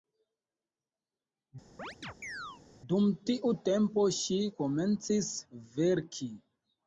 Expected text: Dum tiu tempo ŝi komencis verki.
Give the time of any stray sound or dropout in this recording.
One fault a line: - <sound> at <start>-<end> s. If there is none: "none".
- chirp at 1.8-2.6 s